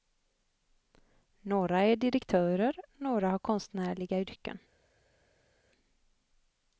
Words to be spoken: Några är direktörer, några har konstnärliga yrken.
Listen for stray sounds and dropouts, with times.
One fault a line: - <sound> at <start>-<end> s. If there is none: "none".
none